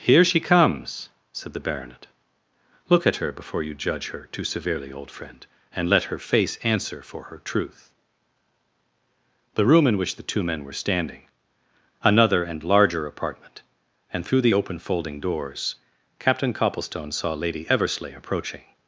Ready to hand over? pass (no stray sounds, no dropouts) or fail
pass